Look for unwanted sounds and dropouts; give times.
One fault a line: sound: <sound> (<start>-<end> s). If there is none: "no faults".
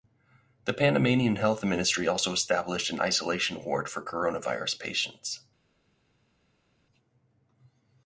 no faults